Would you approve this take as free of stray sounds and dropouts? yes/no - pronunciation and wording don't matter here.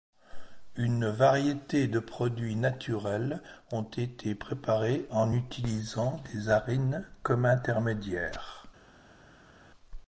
yes